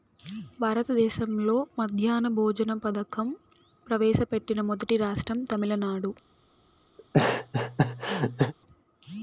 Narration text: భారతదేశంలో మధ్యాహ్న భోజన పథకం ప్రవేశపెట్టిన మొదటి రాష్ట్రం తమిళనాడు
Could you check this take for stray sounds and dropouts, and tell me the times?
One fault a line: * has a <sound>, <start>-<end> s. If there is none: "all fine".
* has a laugh, 7.0-8.5 s